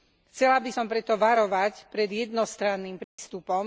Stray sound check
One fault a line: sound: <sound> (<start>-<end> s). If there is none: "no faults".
sound: dropout (3.0-3.2 s)